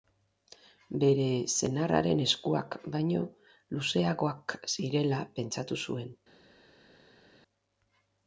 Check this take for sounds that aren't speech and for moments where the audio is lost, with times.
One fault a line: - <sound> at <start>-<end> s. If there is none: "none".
none